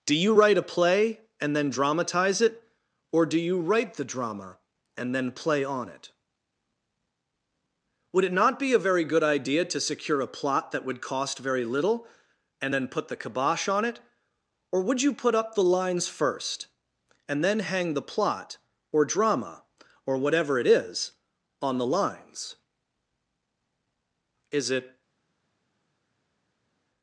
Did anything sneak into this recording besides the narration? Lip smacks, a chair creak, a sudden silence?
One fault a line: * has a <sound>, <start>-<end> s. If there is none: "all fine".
all fine